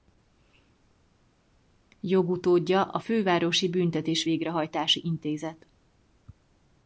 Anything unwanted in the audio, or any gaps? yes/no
no